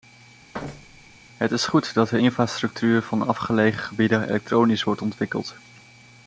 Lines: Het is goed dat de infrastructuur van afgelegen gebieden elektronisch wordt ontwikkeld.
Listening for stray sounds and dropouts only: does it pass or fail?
fail